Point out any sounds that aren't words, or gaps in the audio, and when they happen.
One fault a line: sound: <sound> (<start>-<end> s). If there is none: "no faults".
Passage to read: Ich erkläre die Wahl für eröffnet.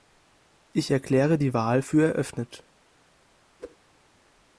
sound: whoosh (3.6-3.8 s)